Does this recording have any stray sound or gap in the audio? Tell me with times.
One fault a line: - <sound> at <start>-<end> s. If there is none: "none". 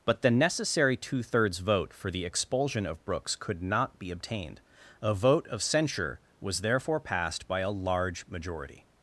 none